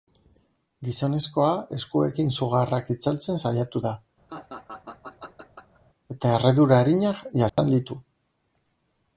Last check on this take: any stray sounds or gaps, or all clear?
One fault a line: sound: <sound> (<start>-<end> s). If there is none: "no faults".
sound: laugh (4.3-5.8 s)
sound: dropout (7.5-7.6 s)